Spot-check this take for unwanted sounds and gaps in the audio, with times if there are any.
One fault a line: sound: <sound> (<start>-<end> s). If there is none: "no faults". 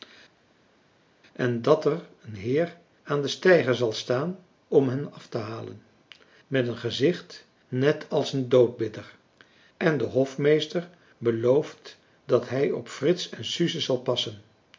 no faults